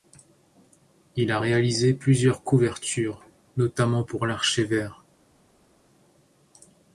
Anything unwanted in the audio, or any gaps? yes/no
no